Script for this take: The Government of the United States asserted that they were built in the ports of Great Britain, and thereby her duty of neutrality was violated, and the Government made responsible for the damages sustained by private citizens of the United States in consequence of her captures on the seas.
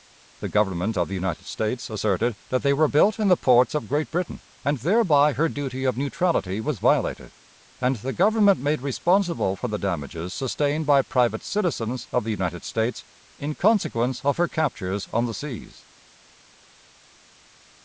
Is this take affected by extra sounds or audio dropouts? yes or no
no